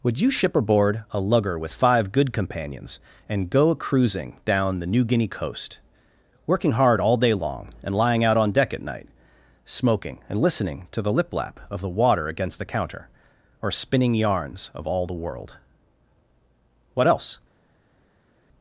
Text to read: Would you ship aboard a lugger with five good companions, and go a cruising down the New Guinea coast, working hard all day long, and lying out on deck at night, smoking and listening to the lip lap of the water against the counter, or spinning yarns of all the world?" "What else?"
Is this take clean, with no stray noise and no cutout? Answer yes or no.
yes